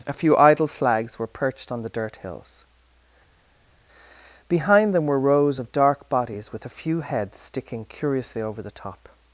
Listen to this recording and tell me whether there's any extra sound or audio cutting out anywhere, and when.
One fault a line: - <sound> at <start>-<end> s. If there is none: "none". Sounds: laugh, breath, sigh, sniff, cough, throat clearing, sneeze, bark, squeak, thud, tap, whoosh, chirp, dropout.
none